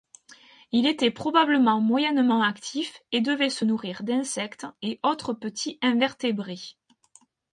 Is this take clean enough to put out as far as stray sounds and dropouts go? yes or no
yes